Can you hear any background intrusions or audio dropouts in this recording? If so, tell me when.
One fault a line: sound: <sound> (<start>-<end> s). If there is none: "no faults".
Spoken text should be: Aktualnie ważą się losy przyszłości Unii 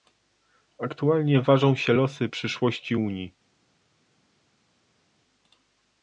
no faults